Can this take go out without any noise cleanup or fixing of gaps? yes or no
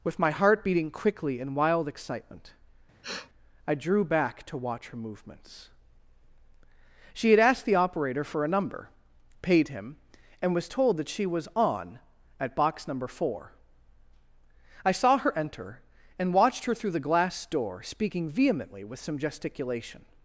no